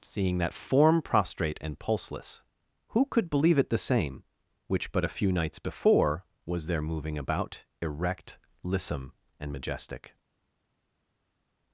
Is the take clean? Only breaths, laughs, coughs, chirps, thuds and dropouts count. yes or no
yes